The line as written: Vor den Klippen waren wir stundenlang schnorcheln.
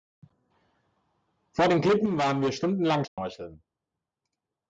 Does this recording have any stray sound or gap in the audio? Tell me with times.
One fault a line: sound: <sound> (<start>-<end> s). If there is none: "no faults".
sound: dropout (3.1-3.2 s)